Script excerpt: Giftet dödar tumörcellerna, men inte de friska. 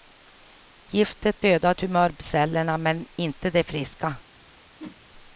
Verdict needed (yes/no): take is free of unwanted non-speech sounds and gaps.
no